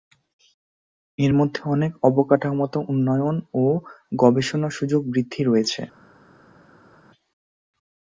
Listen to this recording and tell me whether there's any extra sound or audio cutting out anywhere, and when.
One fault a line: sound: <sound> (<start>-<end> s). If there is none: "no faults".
no faults